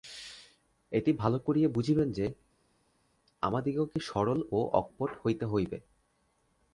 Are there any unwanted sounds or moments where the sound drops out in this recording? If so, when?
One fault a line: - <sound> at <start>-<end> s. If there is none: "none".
none